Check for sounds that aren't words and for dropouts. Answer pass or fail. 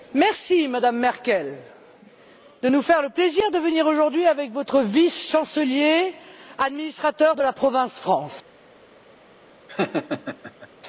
fail